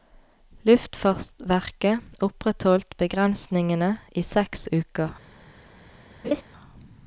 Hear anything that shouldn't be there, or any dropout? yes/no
yes